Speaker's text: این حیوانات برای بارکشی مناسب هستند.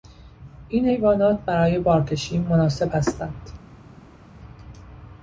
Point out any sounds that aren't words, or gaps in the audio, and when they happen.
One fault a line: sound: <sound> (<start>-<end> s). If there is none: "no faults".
no faults